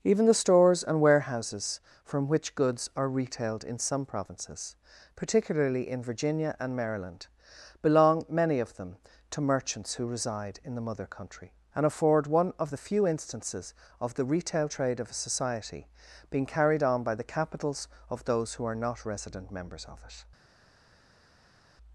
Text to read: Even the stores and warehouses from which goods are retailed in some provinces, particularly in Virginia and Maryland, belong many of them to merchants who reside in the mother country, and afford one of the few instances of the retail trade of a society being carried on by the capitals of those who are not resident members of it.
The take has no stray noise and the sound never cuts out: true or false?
true